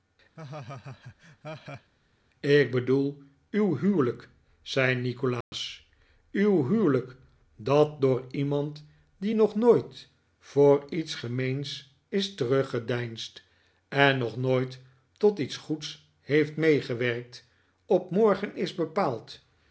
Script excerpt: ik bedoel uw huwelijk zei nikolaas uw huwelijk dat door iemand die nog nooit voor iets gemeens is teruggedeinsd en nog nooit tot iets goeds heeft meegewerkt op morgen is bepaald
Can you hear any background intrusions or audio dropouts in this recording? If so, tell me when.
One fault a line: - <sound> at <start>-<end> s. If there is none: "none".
- laugh at 0.4-1.9 s
- dropout at 5.4-5.5 s